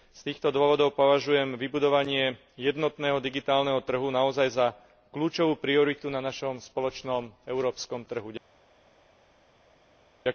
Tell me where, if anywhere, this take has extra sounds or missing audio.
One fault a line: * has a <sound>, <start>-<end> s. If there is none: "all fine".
all fine